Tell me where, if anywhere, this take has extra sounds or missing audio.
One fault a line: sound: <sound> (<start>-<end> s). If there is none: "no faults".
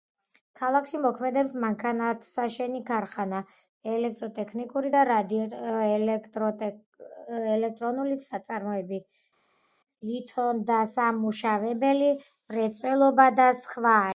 no faults